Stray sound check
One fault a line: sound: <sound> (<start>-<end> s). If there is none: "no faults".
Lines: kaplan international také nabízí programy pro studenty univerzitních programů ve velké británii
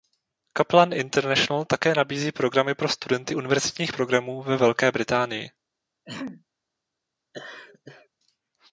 sound: throat clearing (6.1-6.5 s)
sound: laugh (7.3-8.1 s)